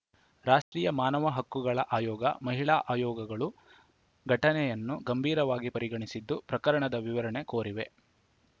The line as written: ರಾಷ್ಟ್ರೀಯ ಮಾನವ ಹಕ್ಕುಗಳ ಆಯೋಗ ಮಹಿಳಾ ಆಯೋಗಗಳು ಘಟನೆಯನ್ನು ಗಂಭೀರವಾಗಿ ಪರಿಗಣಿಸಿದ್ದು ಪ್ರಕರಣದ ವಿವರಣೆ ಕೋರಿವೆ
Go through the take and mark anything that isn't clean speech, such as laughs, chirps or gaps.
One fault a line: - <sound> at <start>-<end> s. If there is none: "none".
- dropout at 0.6-0.7 s